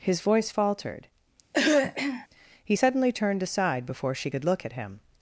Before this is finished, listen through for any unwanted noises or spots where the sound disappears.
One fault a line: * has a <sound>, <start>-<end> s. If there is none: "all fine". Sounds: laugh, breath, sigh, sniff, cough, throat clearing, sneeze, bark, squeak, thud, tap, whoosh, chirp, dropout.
* has a throat clearing, 1.5-2.3 s